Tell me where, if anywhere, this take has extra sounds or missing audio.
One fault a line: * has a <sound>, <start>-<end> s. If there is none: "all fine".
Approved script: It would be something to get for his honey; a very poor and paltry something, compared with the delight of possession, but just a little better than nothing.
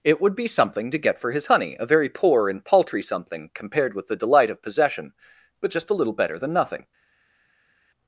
all fine